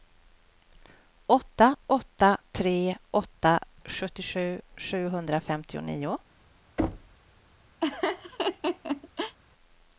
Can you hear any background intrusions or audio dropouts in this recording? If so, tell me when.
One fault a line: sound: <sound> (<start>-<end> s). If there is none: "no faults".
sound: thud (6.8-7.2 s)
sound: laugh (7.8-9.4 s)